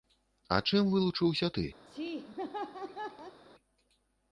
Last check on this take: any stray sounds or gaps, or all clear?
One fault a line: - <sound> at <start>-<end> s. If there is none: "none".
- laugh at 1.9-3.4 s